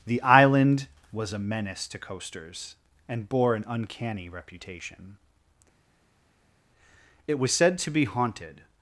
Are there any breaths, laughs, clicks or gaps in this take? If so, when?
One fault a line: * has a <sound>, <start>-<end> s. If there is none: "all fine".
all fine